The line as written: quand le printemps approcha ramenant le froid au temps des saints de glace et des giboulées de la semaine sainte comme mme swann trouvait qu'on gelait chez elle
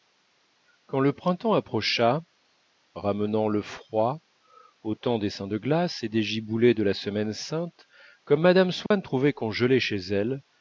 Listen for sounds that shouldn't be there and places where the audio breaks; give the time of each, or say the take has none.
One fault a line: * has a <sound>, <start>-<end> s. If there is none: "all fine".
* has a dropout, 8.9-8.9 s